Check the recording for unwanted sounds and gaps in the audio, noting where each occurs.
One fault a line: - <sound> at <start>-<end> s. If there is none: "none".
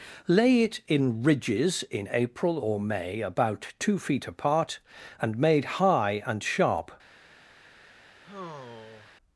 - sigh at 8.2-9.2 s